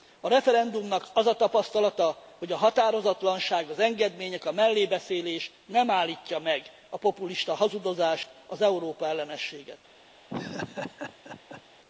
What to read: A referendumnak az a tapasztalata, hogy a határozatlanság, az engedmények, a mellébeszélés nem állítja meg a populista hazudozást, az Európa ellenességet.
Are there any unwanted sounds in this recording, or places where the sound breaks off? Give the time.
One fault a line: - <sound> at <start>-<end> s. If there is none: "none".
- laugh at 10.3-11.6 s